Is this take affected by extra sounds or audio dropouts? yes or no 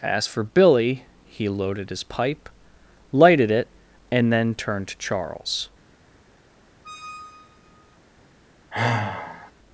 yes